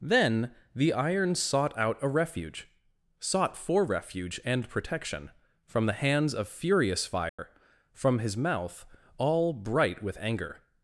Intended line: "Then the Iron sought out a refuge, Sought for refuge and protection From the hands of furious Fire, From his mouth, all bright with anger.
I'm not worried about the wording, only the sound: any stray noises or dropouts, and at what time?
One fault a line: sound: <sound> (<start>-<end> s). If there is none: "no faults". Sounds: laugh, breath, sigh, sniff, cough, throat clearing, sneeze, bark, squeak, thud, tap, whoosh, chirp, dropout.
sound: dropout (7.3-7.4 s)